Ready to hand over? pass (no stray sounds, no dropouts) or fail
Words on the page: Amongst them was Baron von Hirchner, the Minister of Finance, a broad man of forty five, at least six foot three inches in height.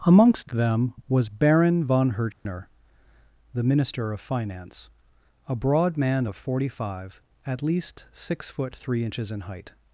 fail